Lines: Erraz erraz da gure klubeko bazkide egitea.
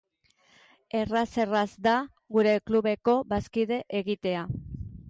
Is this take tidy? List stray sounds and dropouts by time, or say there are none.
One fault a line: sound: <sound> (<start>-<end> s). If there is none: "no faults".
no faults